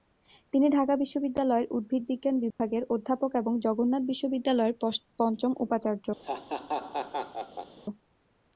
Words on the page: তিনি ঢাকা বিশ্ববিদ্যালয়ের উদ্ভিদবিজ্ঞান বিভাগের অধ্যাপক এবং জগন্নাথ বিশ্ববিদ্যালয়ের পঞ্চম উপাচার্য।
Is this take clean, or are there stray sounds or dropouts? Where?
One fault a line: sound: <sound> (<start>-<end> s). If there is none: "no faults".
sound: dropout (2.5-2.6 s)
sound: laugh (6.2-7.8 s)